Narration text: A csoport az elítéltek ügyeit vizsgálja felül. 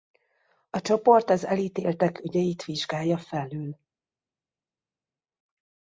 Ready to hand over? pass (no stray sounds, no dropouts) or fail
pass